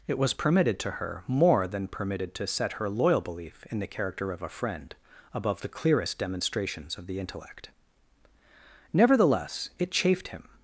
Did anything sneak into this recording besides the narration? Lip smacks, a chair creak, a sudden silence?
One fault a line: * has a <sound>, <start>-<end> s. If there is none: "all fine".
all fine